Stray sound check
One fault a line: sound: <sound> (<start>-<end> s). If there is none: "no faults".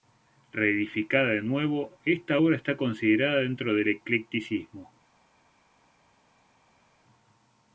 no faults